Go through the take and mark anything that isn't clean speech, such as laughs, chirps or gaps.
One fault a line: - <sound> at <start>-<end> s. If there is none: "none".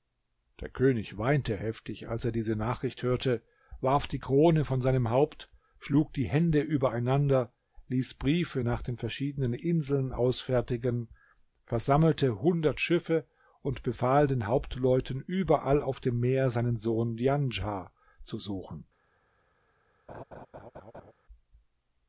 - laugh at 20.1-21.1 s